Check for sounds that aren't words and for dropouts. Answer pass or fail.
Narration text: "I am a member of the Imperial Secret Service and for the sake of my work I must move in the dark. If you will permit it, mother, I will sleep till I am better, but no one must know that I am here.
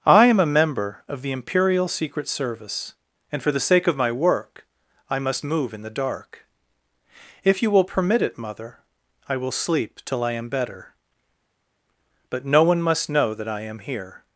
pass